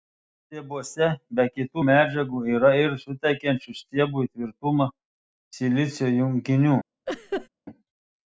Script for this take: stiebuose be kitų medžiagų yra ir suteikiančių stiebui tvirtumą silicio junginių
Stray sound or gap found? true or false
true